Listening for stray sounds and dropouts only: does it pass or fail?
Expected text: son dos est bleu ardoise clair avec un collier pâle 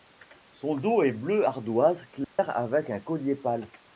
fail